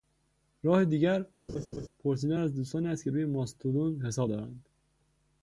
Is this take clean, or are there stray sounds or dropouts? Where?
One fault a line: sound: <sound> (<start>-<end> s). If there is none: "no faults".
sound: laugh (1.5-1.9 s)